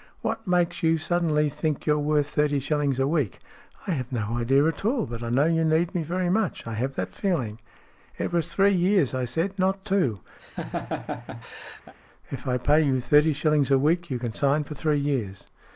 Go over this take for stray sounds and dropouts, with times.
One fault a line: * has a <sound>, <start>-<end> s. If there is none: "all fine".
* has a laugh, 10.4-11.9 s